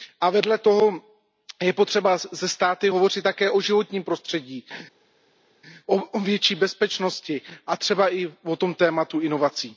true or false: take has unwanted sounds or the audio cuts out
false